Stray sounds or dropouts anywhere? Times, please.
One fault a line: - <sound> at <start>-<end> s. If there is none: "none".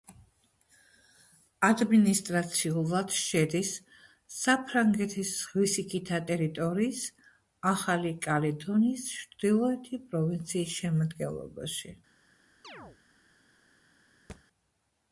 - chirp at 12.6-13.0 s
- thud at 14.3-14.4 s